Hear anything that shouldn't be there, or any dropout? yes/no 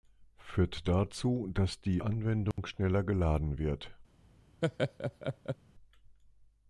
yes